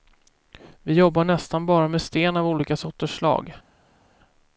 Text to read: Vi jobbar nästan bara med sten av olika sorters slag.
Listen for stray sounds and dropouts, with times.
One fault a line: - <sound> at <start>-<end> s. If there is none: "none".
none